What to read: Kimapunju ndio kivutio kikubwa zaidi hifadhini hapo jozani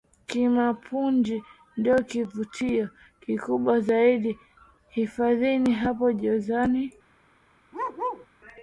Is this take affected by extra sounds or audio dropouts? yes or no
yes